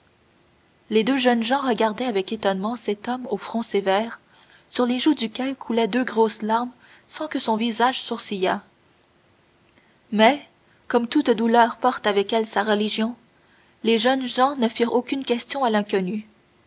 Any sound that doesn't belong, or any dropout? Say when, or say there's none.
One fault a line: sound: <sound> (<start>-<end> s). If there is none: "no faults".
no faults